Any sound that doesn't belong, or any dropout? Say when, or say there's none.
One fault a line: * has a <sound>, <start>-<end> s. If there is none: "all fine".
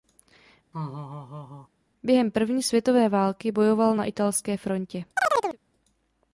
* has a laugh, 0.7-1.7 s
* has a chirp, 5.2-5.6 s